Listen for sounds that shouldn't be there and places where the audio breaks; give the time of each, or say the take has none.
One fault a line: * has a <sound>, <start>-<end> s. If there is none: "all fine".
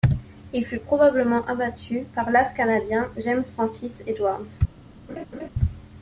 * has a laugh, 5.1-5.5 s